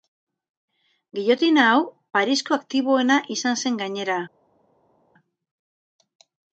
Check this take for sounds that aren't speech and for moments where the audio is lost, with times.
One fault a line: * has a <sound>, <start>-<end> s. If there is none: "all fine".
all fine